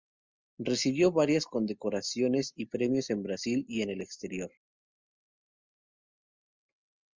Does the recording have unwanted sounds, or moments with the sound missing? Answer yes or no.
no